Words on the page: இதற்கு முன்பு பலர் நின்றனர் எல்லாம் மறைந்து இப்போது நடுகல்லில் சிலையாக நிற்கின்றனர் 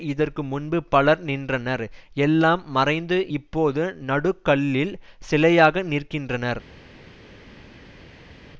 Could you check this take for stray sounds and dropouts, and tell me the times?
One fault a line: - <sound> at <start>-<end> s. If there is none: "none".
none